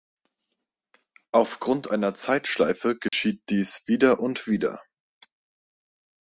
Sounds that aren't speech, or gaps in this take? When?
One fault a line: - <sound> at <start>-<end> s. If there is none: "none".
- dropout at 3.1-3.1 s